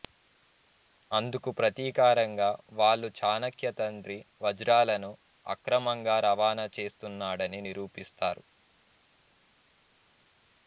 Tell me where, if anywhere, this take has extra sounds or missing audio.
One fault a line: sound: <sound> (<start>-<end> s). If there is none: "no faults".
no faults